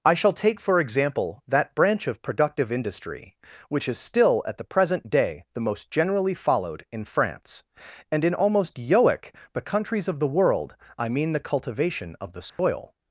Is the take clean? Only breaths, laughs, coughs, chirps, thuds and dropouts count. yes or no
no